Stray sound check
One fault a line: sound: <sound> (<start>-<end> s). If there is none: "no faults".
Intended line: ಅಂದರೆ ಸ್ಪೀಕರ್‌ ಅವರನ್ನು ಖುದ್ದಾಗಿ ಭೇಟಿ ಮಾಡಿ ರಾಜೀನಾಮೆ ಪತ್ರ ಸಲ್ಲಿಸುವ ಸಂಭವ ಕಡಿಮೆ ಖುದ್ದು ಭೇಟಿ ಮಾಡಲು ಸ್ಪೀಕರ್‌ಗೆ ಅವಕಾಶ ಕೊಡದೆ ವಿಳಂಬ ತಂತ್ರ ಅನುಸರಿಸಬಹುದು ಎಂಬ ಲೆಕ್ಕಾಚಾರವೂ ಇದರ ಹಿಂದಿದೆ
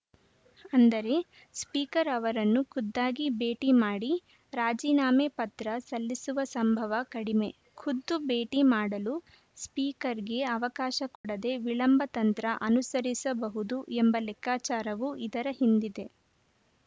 sound: dropout (11.2-11.2 s)